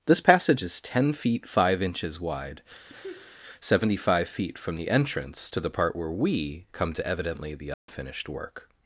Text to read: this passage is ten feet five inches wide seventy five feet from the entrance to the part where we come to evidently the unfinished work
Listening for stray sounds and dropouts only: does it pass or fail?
fail